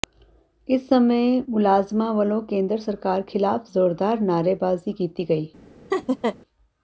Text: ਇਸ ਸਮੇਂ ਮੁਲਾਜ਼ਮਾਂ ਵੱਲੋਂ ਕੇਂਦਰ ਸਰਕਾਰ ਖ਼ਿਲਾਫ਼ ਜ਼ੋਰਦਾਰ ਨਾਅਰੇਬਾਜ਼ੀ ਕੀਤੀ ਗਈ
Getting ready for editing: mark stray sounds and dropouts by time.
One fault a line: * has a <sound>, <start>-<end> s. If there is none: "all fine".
* has a laugh, 5.9-6.4 s